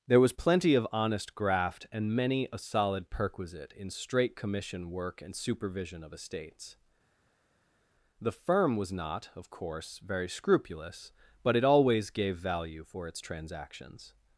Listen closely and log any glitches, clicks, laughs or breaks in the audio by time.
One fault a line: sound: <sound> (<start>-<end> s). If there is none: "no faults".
no faults